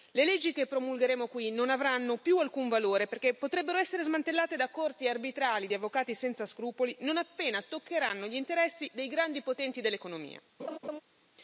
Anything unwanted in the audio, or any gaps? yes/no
yes